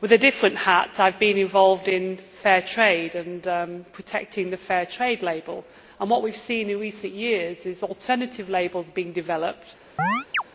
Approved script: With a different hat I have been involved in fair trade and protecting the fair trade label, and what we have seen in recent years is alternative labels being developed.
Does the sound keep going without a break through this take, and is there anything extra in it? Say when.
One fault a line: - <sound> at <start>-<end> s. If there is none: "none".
- chirp at 10.0-10.4 s